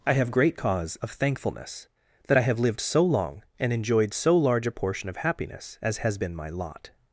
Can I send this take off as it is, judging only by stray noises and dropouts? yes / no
yes